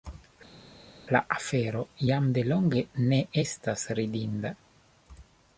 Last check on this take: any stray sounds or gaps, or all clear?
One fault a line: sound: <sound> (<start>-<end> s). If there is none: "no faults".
no faults